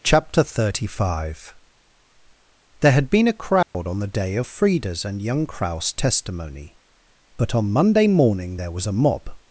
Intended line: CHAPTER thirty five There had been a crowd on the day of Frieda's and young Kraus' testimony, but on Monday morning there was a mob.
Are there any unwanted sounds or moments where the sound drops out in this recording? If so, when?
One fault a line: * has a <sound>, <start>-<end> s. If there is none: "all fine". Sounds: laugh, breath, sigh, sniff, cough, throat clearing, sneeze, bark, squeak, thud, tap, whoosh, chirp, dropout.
* has a dropout, 3.6-3.7 s